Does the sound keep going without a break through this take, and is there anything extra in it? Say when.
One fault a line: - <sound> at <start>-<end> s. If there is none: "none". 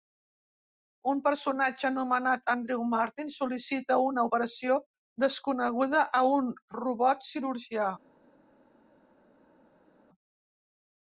none